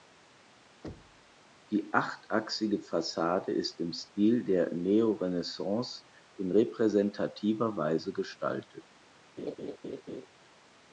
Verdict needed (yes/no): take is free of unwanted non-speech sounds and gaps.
no